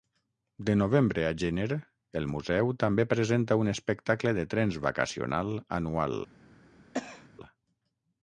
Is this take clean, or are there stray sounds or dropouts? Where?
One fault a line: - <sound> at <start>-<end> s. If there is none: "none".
- cough at 6.9-7.3 s